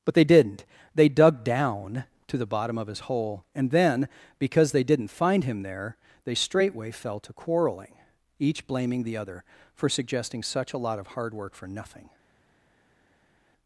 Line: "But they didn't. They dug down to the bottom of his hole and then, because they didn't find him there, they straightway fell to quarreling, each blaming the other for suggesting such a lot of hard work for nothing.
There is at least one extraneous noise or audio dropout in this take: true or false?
false